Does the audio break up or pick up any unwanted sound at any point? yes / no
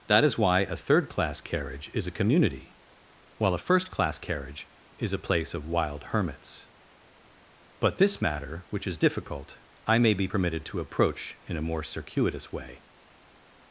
no